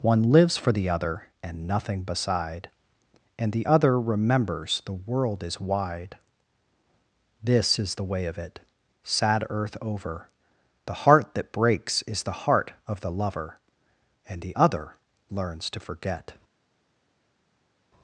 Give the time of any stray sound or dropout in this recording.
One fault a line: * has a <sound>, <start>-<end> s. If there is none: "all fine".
all fine